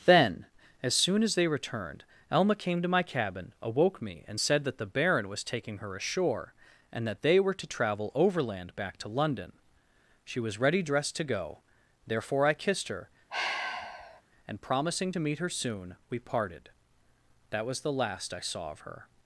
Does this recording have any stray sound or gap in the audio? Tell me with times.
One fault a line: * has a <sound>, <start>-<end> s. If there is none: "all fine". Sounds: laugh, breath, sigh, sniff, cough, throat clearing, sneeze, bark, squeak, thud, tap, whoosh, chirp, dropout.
* has a sigh, 13.3-14.2 s